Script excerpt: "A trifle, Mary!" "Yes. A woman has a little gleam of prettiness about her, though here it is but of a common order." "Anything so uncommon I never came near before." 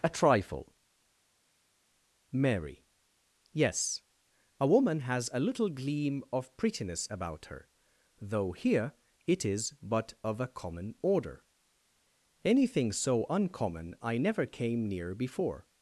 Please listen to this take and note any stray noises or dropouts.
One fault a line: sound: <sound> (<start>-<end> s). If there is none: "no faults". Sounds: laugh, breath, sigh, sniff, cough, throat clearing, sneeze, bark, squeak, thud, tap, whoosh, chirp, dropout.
no faults